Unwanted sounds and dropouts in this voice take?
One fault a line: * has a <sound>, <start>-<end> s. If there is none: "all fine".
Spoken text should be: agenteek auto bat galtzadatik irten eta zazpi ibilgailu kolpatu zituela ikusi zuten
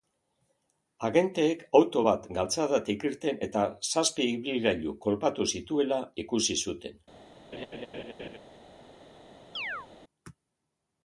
* has a laugh, 7.5-8.4 s
* has a chirp, 9.5-9.9 s